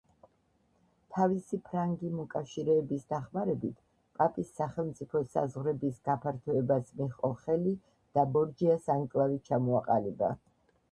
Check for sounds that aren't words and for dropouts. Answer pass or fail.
pass